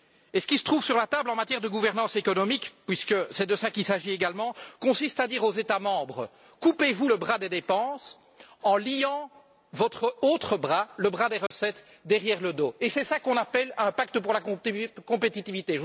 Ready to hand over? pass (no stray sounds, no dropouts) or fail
fail